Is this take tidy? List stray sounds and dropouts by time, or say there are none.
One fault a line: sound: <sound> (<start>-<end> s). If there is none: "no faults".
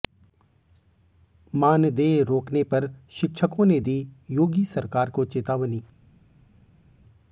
no faults